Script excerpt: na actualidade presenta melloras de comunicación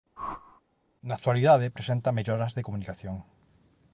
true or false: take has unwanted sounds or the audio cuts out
true